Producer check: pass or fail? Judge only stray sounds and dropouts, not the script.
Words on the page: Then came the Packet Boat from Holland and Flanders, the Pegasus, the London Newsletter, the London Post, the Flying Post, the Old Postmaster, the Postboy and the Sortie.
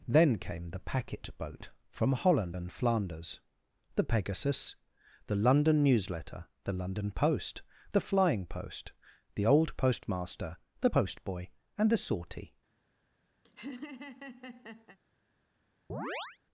fail